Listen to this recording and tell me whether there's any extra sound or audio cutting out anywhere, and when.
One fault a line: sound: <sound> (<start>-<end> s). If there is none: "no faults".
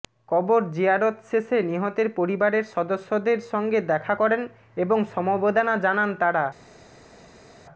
no faults